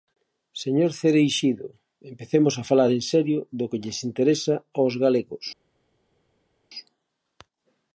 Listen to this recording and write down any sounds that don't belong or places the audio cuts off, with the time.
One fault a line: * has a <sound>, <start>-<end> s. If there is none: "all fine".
all fine